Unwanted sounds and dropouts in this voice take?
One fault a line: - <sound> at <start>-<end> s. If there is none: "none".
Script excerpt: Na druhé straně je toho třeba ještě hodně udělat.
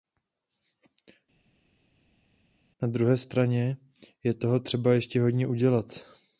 none